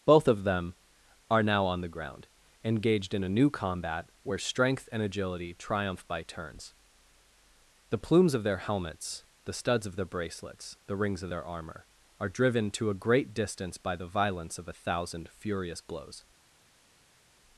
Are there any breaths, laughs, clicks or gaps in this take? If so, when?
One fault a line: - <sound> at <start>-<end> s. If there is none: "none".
none